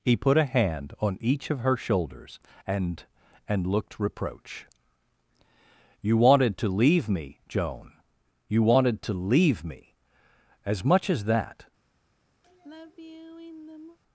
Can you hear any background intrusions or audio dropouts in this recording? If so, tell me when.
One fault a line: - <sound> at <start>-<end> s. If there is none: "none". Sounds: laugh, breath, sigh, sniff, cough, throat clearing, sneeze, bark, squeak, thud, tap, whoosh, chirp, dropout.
- sigh at 12.4-14.0 s